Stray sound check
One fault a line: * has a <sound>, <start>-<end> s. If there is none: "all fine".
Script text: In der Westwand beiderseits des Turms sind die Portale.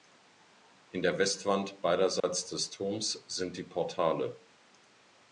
* has a dropout, 2.2-2.2 s